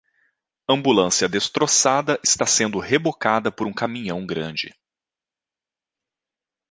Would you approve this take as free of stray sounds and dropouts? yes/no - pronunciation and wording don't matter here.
yes